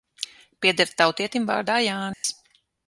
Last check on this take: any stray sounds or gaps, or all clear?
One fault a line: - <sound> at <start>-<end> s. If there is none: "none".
- dropout at 2.1-2.2 s